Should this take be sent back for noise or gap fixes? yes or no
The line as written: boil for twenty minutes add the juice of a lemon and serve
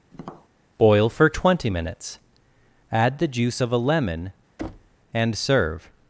yes